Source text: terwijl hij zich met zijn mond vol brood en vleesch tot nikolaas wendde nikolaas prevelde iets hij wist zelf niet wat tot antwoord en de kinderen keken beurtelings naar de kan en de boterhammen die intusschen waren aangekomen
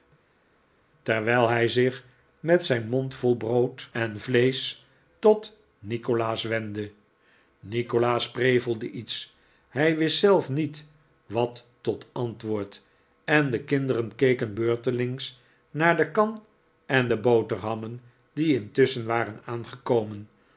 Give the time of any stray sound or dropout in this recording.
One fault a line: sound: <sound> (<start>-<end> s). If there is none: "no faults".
no faults